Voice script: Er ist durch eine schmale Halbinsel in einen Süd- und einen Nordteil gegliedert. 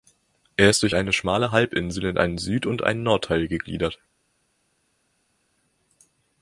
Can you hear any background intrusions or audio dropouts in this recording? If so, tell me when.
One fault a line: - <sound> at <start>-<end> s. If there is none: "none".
none